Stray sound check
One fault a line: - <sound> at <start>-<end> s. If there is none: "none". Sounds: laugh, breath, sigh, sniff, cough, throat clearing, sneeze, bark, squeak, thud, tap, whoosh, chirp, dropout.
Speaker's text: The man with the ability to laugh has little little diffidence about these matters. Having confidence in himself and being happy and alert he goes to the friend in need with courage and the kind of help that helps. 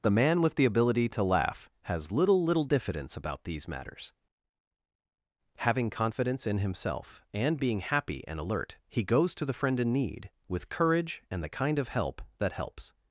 none